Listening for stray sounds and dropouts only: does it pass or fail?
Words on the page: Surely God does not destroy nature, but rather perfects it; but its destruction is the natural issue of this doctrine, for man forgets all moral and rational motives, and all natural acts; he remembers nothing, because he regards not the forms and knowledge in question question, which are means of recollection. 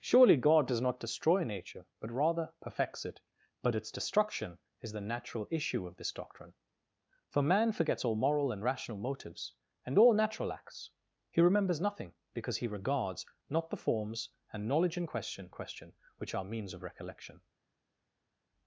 pass